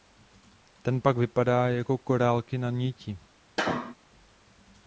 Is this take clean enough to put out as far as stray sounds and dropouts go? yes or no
no